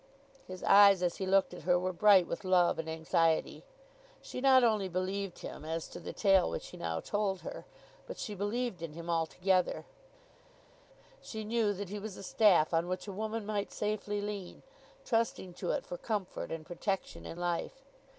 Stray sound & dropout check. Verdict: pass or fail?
pass